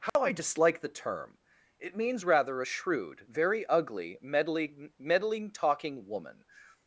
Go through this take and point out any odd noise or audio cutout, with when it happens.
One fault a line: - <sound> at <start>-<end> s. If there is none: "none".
- dropout at 0.1-0.2 s